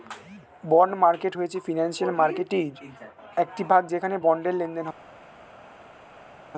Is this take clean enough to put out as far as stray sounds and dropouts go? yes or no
yes